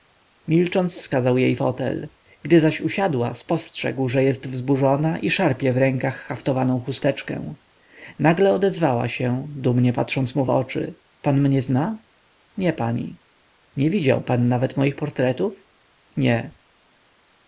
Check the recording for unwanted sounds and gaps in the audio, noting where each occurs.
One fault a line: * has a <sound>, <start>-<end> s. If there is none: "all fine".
all fine